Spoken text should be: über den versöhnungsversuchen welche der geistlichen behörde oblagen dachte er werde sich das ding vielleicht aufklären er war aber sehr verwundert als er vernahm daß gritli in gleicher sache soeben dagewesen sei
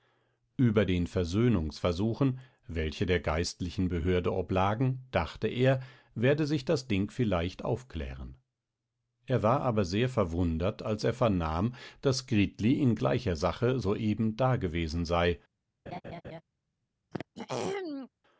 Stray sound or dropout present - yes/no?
yes